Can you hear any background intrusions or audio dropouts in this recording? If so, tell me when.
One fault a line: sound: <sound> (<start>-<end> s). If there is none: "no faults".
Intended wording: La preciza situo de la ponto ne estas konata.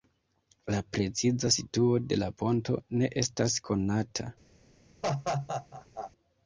sound: laugh (5.0-6.1 s)